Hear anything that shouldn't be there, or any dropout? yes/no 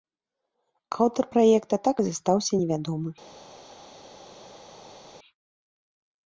no